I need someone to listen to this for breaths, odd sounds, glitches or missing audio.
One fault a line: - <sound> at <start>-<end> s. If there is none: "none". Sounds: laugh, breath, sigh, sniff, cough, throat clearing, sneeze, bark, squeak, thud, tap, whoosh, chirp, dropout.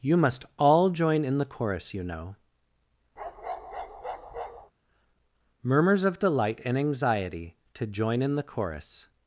- bark at 3.2-4.7 s